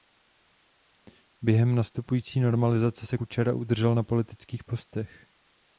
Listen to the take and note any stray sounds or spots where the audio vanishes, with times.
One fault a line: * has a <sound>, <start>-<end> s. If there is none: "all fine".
all fine